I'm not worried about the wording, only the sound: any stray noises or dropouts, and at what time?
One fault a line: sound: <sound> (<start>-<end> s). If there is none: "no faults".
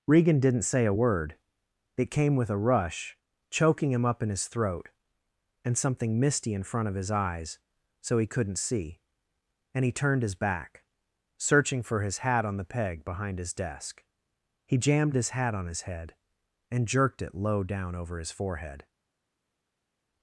no faults